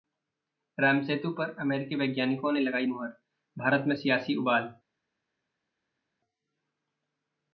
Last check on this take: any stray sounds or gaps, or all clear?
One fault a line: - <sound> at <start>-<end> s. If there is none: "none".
none